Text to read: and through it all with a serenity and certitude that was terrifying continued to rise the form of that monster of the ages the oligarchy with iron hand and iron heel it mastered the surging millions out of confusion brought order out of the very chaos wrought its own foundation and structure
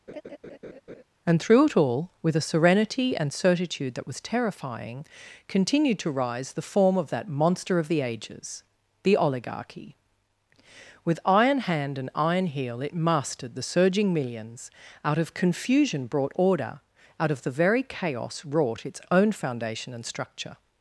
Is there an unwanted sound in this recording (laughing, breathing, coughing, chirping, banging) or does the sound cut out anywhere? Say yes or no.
yes